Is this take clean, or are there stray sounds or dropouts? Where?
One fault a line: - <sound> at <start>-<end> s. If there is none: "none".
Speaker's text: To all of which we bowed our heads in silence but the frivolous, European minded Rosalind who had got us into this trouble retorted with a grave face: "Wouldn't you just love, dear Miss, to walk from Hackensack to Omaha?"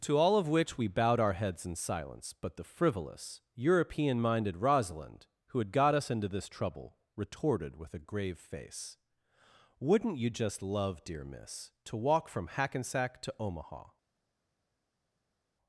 none